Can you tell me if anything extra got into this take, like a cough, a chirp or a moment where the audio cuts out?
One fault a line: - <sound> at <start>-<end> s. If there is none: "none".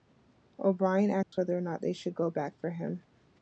- dropout at 1.2-1.3 s